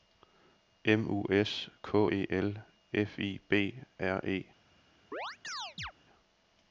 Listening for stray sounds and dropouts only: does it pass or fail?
fail